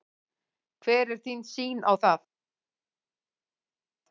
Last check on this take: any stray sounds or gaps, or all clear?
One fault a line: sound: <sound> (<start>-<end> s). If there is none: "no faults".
no faults